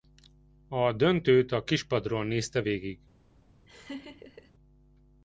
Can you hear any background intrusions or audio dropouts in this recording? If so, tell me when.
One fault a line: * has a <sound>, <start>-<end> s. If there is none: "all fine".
* has a laugh, 3.7-4.5 s